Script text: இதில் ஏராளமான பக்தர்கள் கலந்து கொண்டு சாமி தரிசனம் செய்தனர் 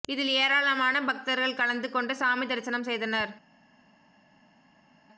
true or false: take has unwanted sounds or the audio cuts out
false